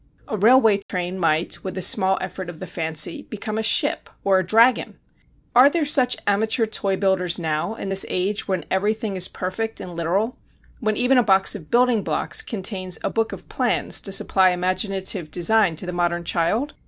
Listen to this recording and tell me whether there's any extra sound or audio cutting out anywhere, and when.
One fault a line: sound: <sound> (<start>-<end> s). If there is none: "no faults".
sound: dropout (0.8-0.9 s)